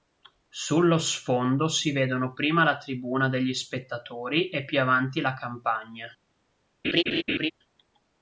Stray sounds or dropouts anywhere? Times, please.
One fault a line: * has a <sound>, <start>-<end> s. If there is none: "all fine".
* has a laugh, 6.8-7.5 s